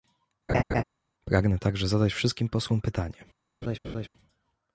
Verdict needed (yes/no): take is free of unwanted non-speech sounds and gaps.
no